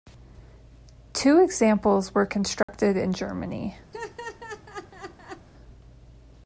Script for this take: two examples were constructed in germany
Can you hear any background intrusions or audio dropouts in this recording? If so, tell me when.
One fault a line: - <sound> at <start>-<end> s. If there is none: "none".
- dropout at 2.6-2.7 s
- laugh at 3.9-5.5 s